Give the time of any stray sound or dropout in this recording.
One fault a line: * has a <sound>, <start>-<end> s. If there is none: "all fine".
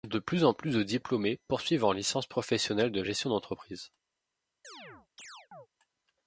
* has a chirp, 4.6-5.7 s